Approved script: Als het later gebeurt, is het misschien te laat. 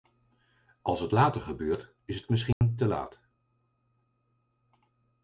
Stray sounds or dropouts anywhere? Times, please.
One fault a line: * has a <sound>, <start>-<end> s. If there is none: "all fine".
* has a dropout, 2.5-2.6 s